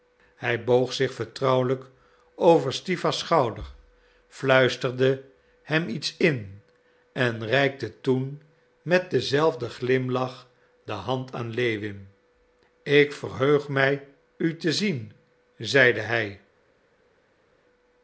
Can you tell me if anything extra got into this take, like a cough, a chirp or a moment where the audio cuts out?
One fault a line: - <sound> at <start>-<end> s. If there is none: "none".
none